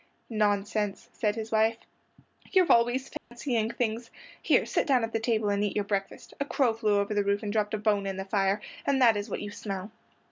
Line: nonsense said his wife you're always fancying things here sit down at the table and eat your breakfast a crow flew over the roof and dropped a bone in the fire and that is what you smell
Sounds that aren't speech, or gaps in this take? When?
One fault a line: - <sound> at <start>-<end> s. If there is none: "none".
- dropout at 3.2-3.3 s